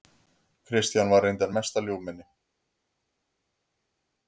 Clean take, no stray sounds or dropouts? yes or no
yes